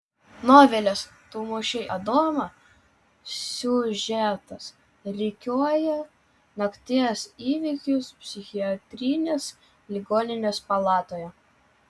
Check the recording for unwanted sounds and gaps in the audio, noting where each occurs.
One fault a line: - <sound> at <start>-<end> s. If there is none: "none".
none